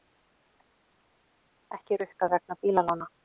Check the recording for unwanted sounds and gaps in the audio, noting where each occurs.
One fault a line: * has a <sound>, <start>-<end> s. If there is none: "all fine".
all fine